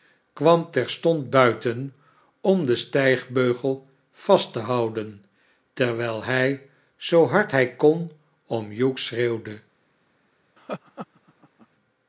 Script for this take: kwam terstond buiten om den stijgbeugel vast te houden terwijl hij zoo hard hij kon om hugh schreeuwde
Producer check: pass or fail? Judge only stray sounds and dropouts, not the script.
fail